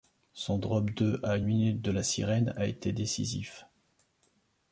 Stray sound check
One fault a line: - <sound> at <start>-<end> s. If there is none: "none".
none